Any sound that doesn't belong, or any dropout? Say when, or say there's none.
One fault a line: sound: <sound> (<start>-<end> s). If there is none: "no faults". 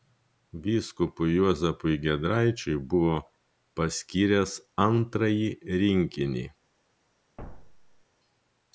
sound: thud (7.4-8.0 s)